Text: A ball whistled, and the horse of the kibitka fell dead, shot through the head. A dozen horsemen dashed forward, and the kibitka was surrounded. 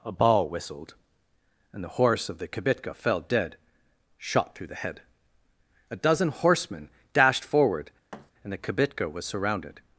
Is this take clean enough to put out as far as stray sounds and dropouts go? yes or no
no